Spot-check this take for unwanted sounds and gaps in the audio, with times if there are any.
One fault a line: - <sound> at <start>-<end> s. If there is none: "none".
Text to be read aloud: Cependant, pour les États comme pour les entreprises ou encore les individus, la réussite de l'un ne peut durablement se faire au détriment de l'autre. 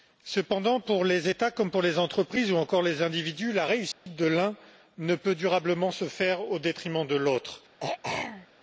- dropout at 3.9-4.1 s
- throat clearing at 7.8-8.5 s